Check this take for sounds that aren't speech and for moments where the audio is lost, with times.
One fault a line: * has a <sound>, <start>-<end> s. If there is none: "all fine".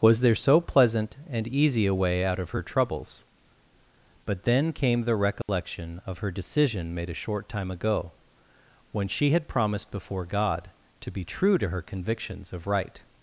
* has a dropout, 5.4-5.5 s